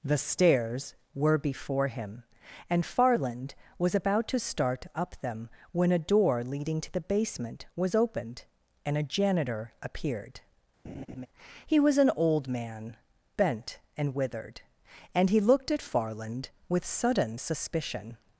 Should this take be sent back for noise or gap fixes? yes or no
yes